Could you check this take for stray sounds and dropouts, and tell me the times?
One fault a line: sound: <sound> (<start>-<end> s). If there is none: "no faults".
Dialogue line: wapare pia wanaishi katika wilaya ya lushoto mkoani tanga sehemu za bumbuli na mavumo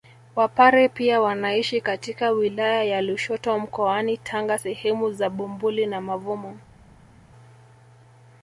no faults